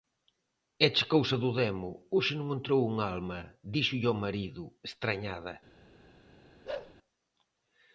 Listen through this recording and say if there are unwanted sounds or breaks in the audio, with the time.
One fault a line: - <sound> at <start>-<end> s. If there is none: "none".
- bark at 6.6-6.9 s